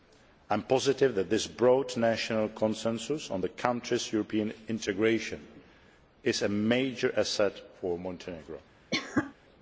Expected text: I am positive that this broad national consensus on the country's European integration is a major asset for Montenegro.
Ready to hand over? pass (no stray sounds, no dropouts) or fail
fail